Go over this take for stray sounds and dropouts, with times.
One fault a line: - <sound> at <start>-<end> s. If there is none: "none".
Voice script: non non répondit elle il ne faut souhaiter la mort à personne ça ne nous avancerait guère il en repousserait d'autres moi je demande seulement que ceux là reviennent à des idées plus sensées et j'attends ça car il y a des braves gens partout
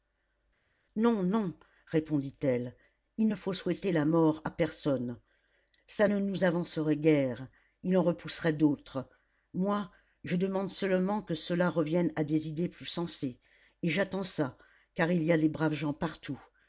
none